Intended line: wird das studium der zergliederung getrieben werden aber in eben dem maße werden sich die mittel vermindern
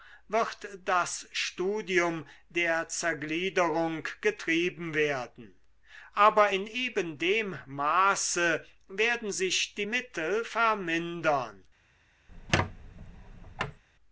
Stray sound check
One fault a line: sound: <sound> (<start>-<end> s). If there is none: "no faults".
sound: squeak (12.3-13.8 s)